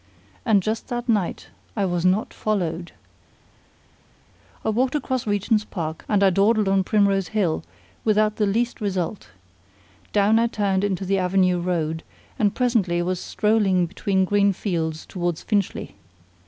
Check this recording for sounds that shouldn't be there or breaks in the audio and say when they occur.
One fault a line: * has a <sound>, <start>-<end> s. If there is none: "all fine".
all fine